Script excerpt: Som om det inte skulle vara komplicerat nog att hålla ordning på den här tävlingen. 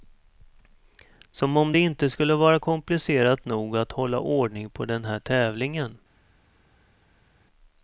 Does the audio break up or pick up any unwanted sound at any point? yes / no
no